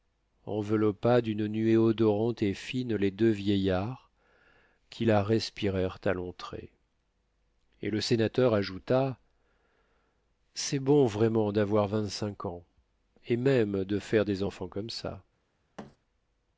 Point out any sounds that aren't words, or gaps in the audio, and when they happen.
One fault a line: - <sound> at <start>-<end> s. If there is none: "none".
- thud at 15.8-16.0 s